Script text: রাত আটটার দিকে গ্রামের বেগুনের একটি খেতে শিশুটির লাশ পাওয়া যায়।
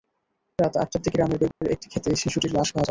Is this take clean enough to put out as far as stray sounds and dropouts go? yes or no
no